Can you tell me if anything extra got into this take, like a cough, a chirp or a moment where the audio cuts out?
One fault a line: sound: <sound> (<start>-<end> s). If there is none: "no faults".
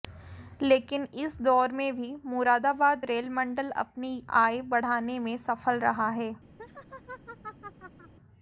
sound: laugh (6.6-8.1 s)